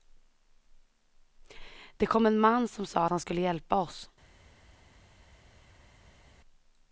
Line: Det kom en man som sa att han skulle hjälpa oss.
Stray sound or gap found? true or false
false